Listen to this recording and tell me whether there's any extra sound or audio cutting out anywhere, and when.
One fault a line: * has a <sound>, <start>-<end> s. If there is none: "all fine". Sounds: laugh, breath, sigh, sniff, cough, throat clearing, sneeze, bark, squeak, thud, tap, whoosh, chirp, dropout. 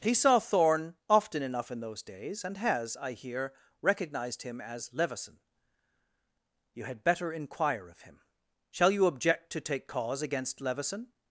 all fine